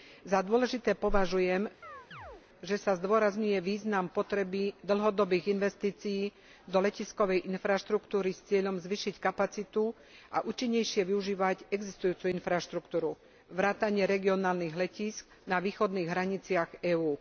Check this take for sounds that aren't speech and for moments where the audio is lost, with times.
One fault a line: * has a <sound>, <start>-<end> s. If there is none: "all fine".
* has a chirp, 1.8-2.5 s